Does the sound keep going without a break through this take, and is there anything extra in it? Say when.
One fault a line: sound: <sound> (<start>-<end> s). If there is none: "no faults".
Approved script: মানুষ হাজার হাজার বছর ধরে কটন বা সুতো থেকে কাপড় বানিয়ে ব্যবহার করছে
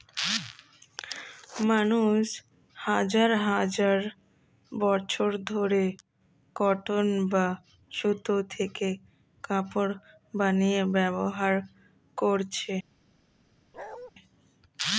sound: bark (13.7-14.1 s)